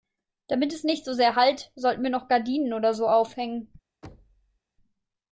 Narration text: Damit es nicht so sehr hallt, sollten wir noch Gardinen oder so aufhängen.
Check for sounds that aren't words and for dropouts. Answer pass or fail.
fail